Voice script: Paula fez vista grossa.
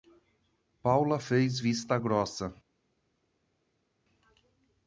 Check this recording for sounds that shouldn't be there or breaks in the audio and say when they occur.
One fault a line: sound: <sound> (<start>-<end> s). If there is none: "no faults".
no faults